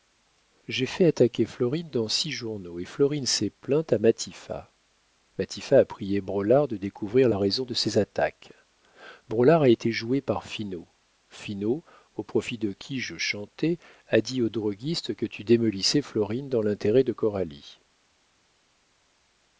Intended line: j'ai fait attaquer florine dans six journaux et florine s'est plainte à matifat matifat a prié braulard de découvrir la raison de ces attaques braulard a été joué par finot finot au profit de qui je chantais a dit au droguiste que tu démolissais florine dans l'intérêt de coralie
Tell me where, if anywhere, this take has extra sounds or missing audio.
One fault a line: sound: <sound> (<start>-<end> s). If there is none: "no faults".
no faults